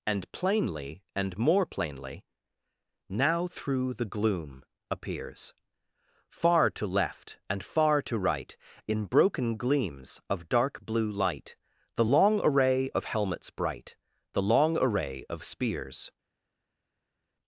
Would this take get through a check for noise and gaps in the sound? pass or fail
pass